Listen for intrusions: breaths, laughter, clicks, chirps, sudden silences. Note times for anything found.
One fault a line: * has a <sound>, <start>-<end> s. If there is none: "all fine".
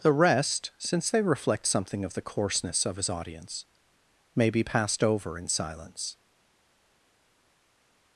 all fine